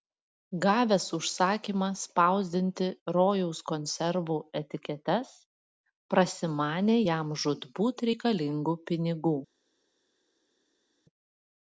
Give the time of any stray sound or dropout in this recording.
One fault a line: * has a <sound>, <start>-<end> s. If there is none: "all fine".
all fine